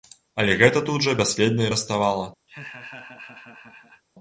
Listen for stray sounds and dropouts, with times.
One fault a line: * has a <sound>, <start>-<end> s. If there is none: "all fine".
* has a laugh, 2.5-4.0 s